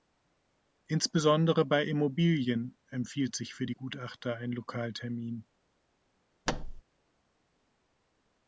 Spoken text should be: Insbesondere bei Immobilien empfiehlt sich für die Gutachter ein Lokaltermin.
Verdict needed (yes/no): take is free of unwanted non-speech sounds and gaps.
no